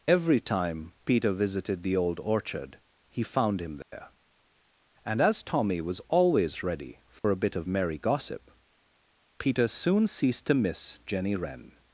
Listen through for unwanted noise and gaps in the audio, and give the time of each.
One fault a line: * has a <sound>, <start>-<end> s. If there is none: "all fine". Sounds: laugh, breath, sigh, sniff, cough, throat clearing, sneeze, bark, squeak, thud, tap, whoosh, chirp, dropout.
* has a dropout, 3.8-3.9 s
* has a dropout, 7.2-7.2 s